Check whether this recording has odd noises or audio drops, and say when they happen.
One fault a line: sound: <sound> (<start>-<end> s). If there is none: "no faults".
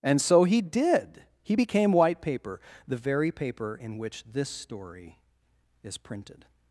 no faults